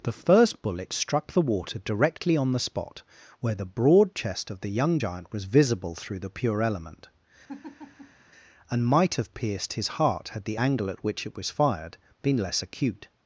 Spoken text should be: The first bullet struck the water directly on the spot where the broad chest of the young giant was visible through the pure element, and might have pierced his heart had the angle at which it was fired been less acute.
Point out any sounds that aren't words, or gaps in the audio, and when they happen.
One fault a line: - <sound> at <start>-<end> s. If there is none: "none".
- laugh at 7.5-8.2 s